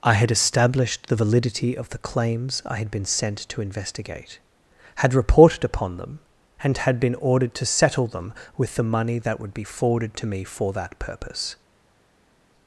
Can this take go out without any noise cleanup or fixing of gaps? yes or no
yes